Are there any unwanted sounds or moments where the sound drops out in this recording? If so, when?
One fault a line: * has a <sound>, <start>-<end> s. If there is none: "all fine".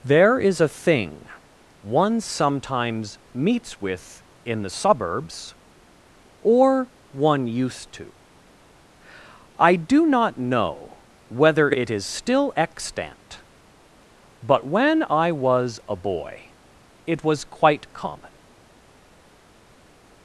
all fine